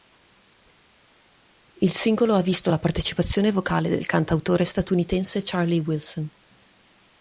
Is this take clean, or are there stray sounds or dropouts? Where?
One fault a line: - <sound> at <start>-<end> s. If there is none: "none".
none